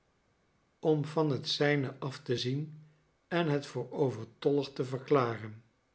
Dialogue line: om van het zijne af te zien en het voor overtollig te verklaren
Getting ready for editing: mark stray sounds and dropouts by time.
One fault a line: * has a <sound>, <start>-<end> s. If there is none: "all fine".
all fine